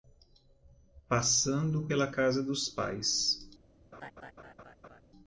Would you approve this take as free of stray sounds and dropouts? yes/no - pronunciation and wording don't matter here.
no